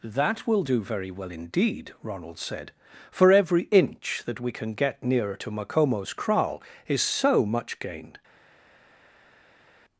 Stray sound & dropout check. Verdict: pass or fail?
pass